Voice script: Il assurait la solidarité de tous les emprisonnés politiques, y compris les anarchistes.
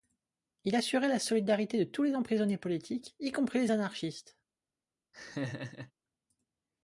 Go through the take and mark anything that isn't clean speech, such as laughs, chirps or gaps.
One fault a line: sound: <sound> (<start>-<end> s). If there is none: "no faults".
sound: laugh (5.1-5.9 s)